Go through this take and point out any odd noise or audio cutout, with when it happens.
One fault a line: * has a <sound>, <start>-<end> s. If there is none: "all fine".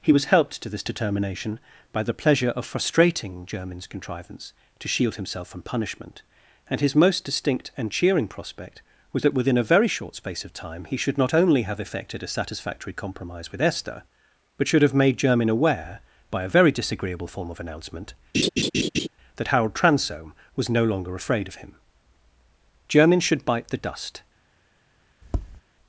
* has a laugh, 18.3-19.1 s
* has a tap, 25.2-25.6 s